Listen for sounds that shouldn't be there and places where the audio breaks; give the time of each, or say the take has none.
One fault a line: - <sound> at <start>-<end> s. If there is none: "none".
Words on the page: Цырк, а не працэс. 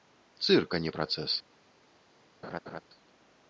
- laugh at 2.4-2.8 s